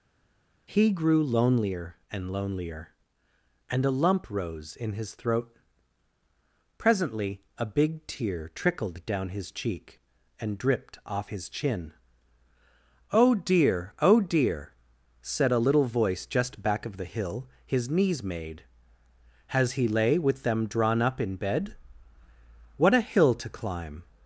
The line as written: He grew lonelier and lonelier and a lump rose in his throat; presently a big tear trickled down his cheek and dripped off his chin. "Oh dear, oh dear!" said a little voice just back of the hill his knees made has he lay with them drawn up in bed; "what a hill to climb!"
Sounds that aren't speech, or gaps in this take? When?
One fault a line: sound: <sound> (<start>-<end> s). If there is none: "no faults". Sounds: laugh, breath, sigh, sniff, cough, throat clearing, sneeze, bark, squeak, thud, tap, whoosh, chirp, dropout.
no faults